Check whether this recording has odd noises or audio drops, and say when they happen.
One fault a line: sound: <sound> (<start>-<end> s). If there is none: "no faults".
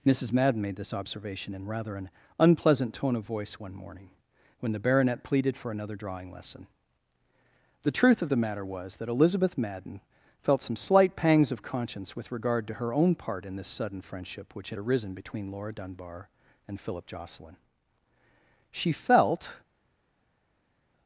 no faults